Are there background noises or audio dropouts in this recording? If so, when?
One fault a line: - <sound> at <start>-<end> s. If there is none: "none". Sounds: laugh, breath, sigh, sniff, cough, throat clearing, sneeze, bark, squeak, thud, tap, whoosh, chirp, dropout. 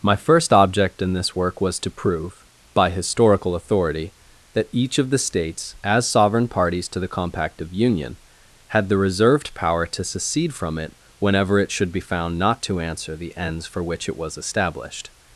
none